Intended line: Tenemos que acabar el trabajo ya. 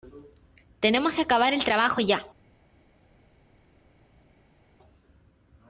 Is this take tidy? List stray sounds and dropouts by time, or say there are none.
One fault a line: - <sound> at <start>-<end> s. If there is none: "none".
none